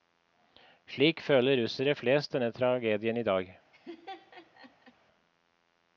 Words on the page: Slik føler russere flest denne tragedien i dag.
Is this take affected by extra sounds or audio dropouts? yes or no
yes